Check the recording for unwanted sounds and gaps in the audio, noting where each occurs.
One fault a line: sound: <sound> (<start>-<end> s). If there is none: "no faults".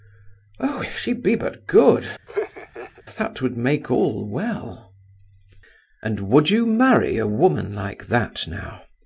sound: laugh (2.3-3.0 s)